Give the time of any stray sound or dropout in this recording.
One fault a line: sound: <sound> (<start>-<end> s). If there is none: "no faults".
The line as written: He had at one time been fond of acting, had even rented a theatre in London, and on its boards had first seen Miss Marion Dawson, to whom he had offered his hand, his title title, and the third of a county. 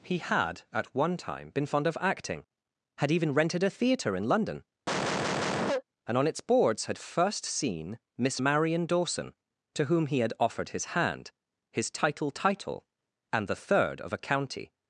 sound: cough (4.9-5.8 s)